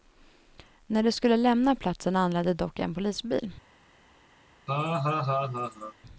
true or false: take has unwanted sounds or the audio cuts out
true